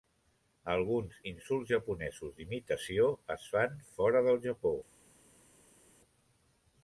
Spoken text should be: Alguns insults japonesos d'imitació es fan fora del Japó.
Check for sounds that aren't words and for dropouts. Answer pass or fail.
pass